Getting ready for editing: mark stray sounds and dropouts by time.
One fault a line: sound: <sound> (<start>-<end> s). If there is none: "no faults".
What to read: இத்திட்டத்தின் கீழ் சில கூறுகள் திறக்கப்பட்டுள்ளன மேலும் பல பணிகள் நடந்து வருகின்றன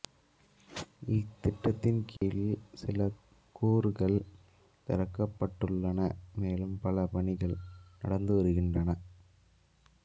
sound: dropout (2.2-2.2 s)